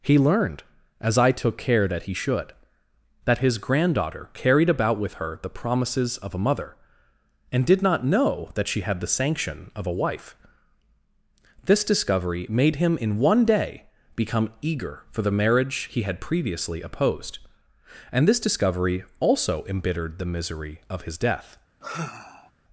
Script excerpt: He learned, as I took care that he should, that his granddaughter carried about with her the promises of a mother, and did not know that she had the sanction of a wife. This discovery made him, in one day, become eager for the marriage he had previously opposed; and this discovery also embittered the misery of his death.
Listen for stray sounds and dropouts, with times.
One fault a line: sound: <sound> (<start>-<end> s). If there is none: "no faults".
sound: sigh (21.8-22.5 s)